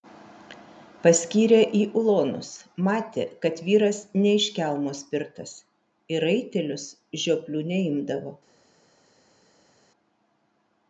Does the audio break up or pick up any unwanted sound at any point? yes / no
no